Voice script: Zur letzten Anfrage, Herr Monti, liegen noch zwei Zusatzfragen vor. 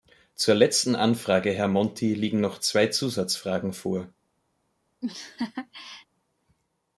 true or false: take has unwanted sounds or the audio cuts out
true